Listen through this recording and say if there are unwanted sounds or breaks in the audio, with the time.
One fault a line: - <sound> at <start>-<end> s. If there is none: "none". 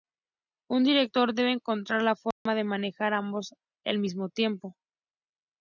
- dropout at 2.3-2.5 s